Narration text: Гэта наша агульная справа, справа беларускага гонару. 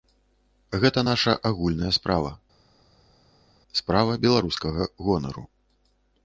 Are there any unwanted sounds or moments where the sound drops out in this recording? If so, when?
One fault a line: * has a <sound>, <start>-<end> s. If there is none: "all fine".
all fine